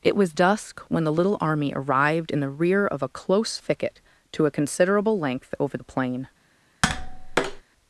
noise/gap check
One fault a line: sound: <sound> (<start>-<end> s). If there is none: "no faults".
sound: tap (6.8-7.6 s)